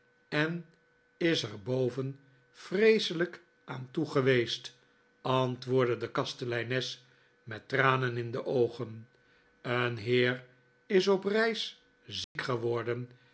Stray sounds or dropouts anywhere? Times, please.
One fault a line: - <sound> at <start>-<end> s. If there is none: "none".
- dropout at 12.2-12.4 s